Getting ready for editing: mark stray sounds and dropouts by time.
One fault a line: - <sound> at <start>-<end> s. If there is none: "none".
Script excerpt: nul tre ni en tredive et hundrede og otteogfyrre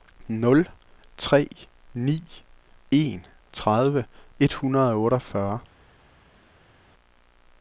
none